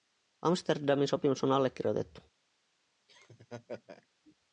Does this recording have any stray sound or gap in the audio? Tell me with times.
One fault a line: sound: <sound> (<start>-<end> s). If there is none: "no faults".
sound: laugh (3.1-4.1 s)